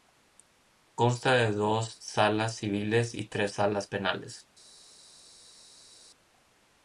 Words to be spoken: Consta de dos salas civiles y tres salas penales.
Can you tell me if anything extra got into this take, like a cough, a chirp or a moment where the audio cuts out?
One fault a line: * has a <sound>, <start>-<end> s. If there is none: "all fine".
all fine